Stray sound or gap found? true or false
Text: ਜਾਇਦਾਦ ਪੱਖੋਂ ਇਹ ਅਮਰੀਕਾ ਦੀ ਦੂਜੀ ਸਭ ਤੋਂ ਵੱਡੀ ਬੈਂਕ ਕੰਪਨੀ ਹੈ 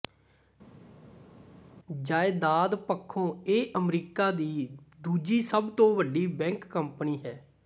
false